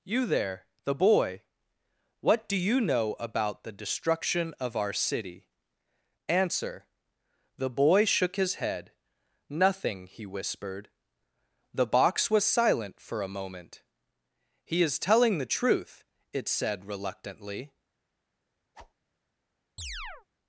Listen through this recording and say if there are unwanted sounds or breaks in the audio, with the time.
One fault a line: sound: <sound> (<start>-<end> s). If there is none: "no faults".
sound: whoosh (18.7-18.9 s)
sound: chirp (19.8-20.3 s)